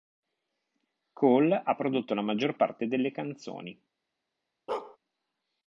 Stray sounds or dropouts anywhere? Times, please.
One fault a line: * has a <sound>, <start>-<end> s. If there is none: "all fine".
* has a bark, 4.7-5.0 s